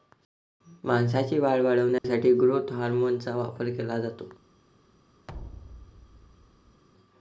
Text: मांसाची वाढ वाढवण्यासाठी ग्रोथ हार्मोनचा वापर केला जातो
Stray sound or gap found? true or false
true